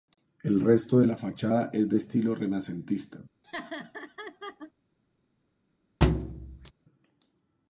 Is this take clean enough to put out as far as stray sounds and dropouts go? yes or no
no